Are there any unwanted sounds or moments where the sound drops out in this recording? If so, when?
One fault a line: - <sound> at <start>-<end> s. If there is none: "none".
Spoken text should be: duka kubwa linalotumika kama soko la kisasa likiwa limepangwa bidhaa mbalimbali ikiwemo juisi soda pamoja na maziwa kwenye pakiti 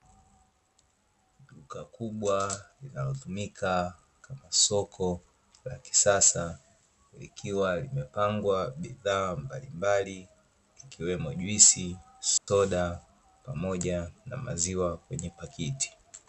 - dropout at 12.4-12.5 s